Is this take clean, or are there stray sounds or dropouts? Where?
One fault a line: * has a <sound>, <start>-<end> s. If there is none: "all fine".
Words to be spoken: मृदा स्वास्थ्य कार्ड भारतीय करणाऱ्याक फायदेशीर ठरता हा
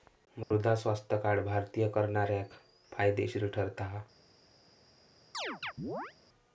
* has a dropout, 0.4-0.5 s
* has a chirp, 5.3-6.1 s